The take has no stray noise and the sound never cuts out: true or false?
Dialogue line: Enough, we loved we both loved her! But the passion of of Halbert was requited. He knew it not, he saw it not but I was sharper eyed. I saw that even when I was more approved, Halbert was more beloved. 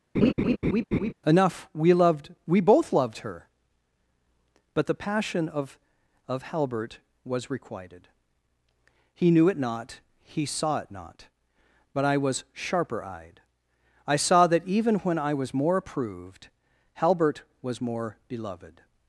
false